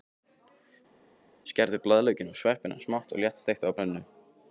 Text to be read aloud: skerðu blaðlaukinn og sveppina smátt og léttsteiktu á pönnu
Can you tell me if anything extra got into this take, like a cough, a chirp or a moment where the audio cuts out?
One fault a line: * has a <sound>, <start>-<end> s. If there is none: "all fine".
all fine